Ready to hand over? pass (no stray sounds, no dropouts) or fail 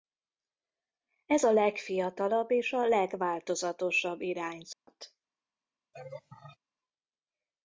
fail